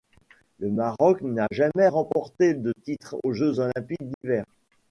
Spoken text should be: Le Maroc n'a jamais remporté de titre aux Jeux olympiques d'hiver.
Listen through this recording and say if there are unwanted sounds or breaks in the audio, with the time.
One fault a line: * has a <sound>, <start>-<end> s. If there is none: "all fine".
* has a dropout, 4.1-4.2 s